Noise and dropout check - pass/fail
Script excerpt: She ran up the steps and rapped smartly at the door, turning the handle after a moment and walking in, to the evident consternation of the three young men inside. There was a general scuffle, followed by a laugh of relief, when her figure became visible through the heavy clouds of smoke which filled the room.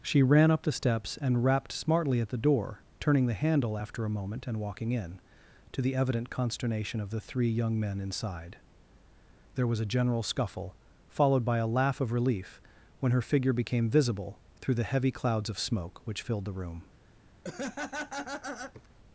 fail